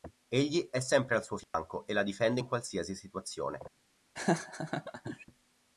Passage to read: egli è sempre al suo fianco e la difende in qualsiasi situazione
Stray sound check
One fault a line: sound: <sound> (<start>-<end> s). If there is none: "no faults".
sound: dropout (1.4-1.5 s)
sound: laugh (4.2-5.3 s)